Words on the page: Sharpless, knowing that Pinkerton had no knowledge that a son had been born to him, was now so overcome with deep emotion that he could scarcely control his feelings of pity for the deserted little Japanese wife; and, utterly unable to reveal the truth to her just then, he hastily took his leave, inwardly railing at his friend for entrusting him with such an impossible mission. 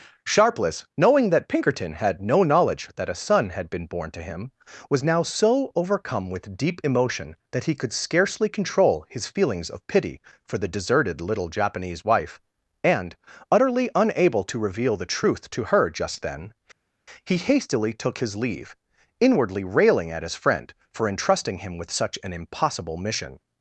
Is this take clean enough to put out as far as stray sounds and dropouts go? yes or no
yes